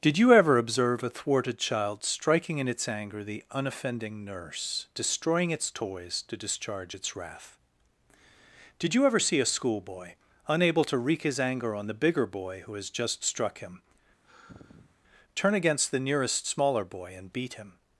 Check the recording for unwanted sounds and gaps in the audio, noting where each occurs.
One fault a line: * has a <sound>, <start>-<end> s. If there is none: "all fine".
* has a sigh, 14.2-15.0 s